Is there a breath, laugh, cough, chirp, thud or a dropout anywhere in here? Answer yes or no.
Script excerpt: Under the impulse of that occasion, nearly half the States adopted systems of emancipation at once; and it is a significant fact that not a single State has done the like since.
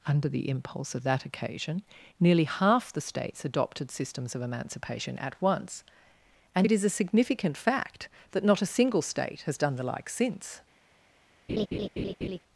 yes